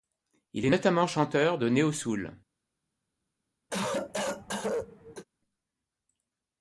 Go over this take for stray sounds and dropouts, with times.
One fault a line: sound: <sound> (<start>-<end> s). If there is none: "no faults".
sound: cough (3.7-5.2 s)